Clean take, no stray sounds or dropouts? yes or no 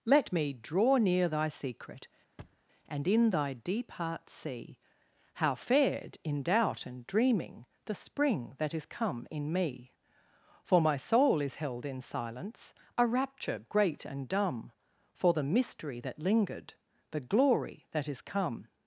no